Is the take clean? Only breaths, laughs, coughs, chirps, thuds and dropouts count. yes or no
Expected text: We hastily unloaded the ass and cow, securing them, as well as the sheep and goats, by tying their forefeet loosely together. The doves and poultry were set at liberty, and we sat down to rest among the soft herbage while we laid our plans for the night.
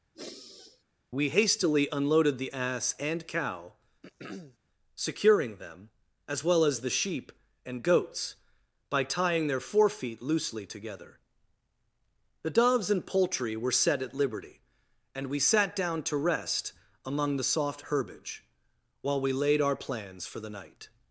no